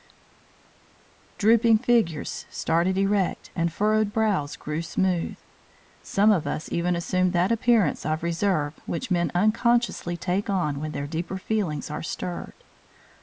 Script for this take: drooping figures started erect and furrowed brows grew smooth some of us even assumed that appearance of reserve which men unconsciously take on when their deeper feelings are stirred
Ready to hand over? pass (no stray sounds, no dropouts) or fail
pass